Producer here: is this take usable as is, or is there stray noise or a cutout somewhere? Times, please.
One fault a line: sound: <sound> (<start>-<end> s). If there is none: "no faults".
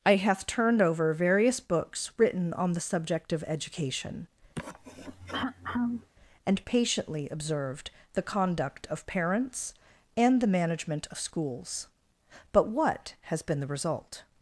sound: throat clearing (4.6-6.1 s)